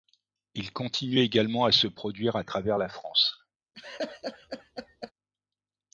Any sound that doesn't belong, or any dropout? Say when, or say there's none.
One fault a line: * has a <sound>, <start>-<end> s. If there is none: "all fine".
* has a laugh, 3.7-5.1 s